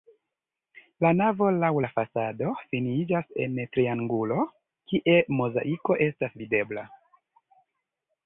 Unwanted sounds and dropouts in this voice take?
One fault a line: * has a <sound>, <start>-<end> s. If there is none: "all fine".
all fine